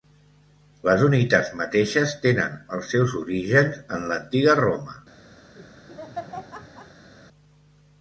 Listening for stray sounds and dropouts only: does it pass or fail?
fail